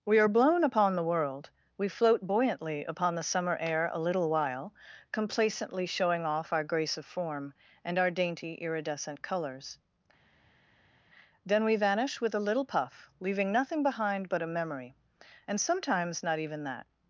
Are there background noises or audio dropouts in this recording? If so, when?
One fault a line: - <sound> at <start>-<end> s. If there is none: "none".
none